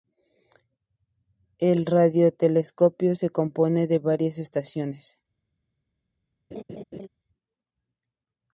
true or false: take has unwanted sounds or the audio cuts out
true